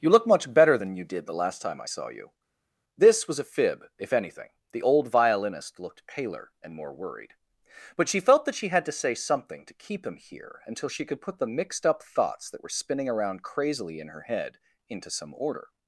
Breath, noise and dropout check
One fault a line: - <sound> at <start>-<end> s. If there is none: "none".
none